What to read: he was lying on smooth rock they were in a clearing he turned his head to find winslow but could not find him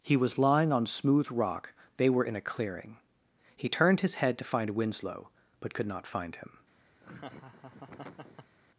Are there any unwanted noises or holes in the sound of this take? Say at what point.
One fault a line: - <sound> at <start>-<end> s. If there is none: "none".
- laugh at 7.0-8.6 s